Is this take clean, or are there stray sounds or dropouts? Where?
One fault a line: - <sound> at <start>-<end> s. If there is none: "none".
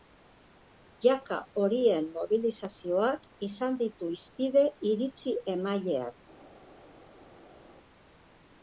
none